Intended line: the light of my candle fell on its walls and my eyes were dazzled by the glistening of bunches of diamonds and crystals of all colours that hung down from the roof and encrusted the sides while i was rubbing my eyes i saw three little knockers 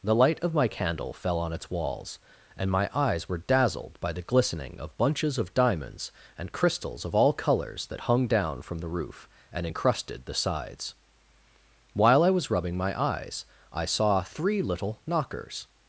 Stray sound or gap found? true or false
false